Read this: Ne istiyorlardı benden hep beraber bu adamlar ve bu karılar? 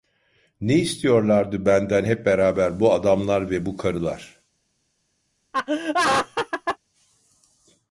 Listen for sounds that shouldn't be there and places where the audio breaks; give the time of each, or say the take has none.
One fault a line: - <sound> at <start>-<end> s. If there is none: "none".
- laugh at 5.5-6.8 s